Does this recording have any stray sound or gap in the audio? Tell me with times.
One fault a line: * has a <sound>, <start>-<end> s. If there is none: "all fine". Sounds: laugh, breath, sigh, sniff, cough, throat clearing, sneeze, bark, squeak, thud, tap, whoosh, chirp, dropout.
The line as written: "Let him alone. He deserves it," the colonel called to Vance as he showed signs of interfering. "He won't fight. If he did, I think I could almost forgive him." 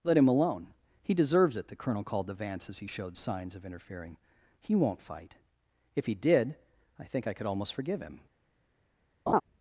* has a laugh, 9.3-9.4 s